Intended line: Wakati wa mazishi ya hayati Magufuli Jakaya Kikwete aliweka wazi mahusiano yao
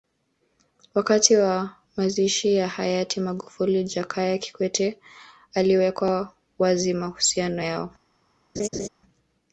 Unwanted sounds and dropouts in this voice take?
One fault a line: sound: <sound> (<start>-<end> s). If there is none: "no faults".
sound: laugh (8.6-8.9 s)